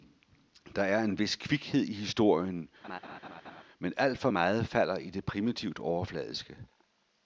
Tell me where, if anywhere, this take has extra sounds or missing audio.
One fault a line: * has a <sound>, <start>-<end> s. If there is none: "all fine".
* has a laugh, 2.8-3.6 s